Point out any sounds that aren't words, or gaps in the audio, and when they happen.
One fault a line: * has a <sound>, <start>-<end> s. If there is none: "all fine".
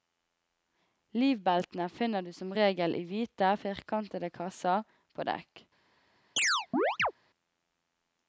* has a chirp, 6.4-7.1 s